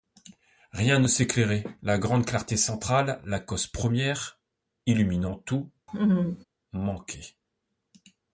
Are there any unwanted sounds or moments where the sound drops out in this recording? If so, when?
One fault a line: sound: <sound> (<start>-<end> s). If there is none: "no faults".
sound: laugh (5.9-6.4 s)